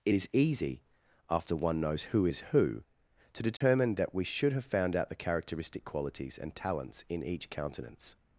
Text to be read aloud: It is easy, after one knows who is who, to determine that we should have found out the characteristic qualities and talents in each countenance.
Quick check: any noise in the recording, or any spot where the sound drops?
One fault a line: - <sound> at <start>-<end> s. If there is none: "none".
- dropout at 3.6-3.6 s